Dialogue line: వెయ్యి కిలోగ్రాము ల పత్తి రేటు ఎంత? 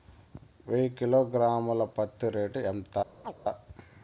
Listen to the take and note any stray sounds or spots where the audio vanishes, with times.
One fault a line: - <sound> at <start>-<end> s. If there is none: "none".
- chirp at 3.2-3.3 s